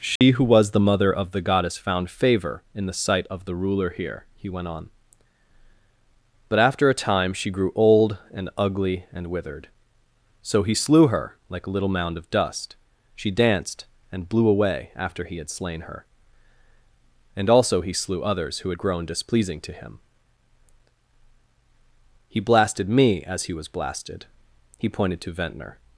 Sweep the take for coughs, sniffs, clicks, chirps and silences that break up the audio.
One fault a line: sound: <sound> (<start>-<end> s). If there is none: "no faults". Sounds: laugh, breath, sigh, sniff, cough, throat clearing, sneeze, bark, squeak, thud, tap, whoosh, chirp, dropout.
sound: dropout (0.2-0.2 s)